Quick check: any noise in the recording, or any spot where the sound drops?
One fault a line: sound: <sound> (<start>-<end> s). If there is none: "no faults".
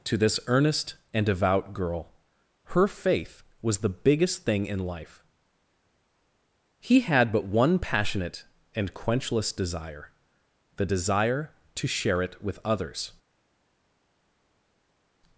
no faults